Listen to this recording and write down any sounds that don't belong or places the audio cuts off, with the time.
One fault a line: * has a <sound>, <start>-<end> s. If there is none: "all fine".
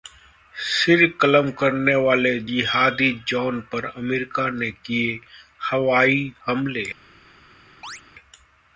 * has a chirp, 7.8-8.0 s